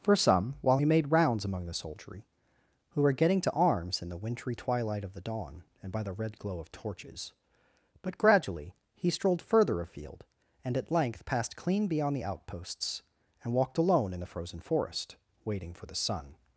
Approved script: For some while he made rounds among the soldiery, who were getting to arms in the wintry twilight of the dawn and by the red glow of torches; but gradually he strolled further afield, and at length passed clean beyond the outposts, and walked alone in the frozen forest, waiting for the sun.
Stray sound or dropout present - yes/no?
no